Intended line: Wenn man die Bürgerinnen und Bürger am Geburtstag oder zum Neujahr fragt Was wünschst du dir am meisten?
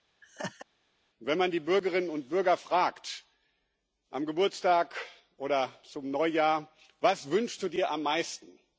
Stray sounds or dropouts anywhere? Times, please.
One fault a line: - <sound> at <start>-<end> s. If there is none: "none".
- laugh at 0.2-0.7 s